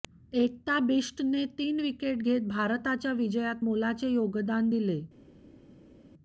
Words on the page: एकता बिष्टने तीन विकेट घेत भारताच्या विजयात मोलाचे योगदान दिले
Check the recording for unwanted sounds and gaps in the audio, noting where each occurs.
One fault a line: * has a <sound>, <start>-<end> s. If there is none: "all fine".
all fine